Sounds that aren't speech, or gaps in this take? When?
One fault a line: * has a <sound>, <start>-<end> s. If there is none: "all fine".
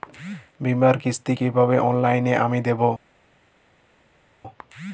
all fine